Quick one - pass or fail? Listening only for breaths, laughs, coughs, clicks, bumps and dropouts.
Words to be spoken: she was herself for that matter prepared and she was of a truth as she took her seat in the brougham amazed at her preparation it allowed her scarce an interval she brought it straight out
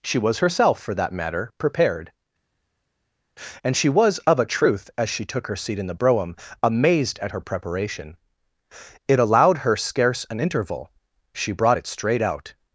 pass